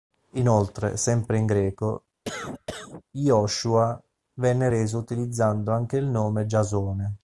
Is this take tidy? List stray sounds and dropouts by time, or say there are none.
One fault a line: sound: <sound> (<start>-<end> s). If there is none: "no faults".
sound: cough (2.2-3.0 s)